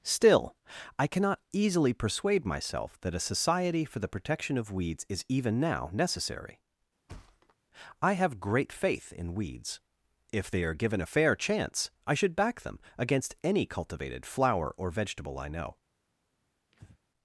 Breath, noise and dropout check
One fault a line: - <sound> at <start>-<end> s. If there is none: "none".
- thud at 7.1-7.6 s
- breath at 16.7-17.0 s